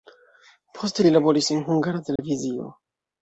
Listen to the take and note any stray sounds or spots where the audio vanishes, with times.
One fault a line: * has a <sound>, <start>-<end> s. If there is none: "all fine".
* has a dropout, 2.2-2.2 s